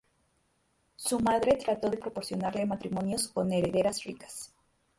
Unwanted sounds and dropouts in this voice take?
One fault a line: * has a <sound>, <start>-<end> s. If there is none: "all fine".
all fine